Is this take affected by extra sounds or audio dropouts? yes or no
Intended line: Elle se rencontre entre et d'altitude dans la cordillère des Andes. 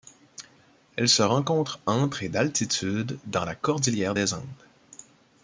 no